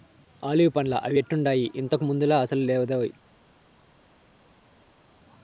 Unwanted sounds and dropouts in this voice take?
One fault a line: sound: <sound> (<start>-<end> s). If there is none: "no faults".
no faults